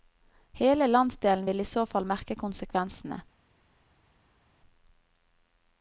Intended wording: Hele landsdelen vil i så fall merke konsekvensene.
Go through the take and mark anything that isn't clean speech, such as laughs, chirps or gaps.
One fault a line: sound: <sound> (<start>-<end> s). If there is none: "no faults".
no faults